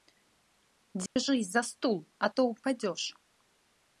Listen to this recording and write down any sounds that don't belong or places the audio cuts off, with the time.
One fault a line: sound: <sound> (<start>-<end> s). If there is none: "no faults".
sound: dropout (1.1-1.2 s)